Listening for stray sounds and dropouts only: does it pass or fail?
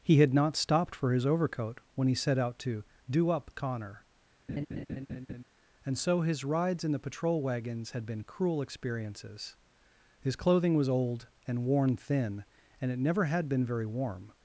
fail